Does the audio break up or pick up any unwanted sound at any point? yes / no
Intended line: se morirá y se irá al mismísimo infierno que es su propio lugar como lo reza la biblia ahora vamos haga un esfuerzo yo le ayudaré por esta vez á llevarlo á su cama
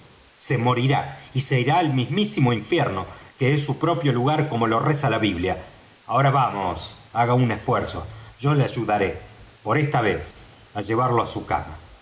yes